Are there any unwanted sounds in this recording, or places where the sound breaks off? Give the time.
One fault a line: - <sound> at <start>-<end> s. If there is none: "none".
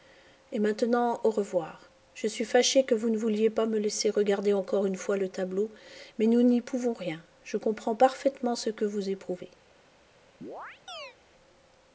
- chirp at 10.4-11.2 s